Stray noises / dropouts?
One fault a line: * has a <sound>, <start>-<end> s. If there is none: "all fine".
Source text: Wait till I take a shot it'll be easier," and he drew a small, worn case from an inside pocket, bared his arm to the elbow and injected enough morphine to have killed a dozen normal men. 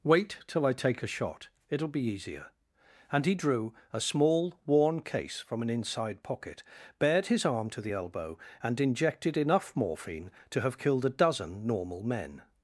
all fine